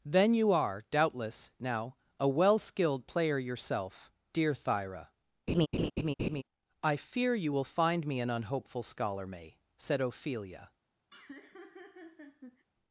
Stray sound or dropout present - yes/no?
yes